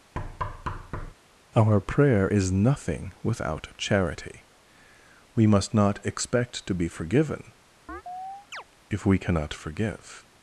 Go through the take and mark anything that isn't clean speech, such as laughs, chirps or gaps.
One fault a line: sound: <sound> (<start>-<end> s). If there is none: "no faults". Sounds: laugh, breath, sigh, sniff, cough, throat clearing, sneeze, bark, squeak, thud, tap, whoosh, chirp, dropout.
sound: thud (0.2-1.1 s)
sound: chirp (7.9-8.6 s)